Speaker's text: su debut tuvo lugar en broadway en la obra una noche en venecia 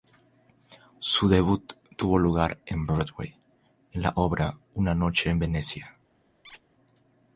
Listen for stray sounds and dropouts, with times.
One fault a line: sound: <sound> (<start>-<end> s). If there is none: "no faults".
sound: squeak (6.4-6.6 s)